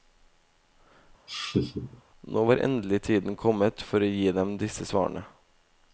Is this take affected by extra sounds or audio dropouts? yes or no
yes